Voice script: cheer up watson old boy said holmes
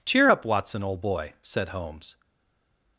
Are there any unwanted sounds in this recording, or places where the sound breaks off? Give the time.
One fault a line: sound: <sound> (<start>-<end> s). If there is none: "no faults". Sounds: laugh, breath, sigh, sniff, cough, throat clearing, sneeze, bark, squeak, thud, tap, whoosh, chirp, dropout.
no faults